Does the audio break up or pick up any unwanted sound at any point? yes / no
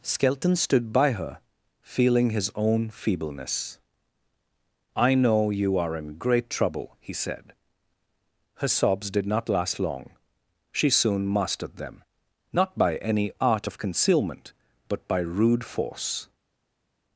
no